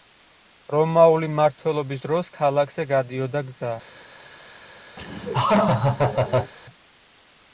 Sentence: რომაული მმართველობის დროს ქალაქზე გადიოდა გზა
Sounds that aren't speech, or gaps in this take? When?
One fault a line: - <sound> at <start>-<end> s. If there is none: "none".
- laugh at 5.0-6.5 s